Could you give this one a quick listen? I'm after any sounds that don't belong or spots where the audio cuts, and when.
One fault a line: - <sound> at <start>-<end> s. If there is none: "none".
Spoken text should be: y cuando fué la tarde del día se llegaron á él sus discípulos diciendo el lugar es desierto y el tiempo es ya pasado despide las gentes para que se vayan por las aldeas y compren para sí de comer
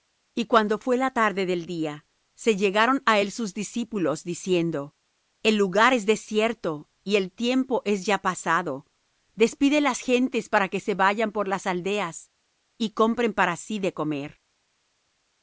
none